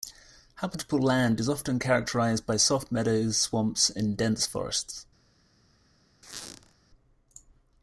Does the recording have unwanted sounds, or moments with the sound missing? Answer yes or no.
yes